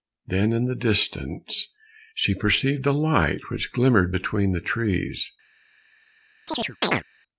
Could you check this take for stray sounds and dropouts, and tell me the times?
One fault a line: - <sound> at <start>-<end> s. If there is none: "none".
- chirp at 6.5-7.0 s